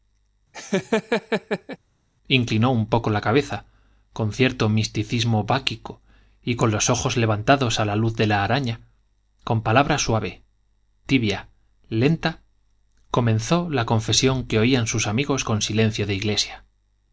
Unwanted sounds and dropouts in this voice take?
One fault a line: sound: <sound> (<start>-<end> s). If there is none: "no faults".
sound: laugh (0.5-1.8 s)